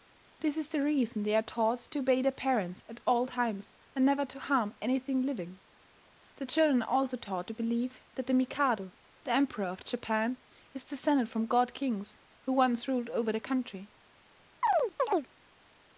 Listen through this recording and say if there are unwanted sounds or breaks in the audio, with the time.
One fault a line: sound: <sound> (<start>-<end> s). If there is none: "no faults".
sound: chirp (14.6-15.3 s)